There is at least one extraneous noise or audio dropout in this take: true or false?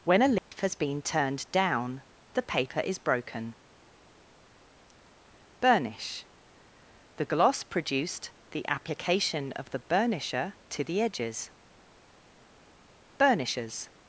true